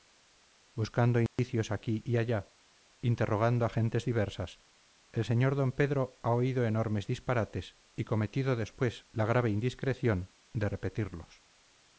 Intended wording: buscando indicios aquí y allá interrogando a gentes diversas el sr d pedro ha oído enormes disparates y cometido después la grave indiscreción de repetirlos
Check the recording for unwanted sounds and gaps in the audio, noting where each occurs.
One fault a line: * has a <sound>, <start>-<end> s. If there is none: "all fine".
* has a dropout, 1.3-1.4 s